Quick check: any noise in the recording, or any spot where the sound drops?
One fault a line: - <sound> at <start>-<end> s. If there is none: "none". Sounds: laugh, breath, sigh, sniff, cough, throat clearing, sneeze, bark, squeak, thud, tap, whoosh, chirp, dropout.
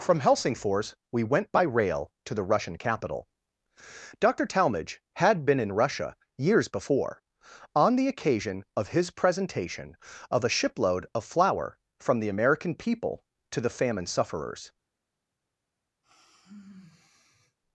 - sigh at 16.0-17.6 s